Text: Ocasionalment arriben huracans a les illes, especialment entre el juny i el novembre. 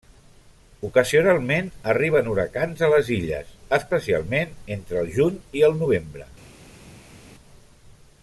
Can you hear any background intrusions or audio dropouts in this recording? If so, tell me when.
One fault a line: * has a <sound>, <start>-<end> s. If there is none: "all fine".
all fine